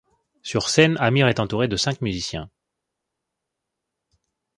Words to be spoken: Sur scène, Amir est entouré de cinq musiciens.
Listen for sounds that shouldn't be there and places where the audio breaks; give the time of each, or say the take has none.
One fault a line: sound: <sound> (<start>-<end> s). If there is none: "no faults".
no faults